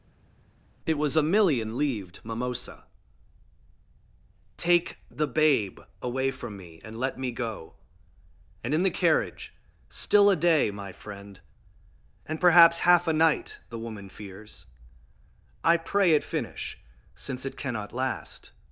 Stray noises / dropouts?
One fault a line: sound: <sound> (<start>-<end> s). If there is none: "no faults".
no faults